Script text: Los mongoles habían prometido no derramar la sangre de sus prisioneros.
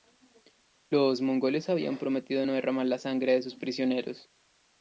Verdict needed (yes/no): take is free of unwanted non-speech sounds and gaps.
yes